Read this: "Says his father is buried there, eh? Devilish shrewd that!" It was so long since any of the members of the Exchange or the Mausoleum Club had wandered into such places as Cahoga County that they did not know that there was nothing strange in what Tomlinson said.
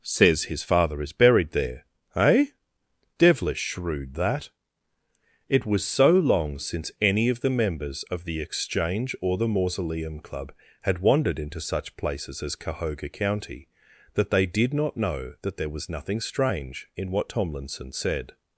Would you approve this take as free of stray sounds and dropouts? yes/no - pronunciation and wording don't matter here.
yes